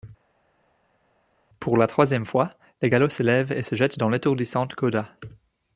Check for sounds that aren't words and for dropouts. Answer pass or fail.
pass